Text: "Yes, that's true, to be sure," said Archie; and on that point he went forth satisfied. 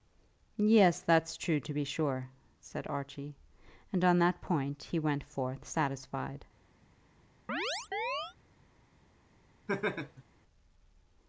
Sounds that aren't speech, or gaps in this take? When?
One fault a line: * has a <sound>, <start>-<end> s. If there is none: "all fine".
* has a chirp, 7.5-8.4 s
* has a laugh, 9.7-10.2 s